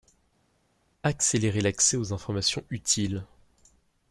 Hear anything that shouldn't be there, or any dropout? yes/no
no